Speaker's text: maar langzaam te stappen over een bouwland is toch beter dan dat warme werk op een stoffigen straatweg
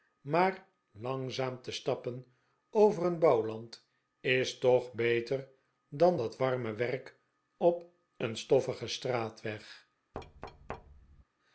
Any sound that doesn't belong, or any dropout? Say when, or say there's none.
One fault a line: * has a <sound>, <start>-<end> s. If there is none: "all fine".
* has a thud, 10.1-11.2 s